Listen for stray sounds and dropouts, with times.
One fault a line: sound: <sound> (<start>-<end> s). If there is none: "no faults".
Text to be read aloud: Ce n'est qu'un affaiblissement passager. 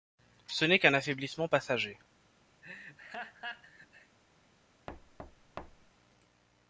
sound: laugh (2.6-4.2 s)
sound: thud (4.9-5.9 s)